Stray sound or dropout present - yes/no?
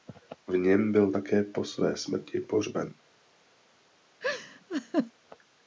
yes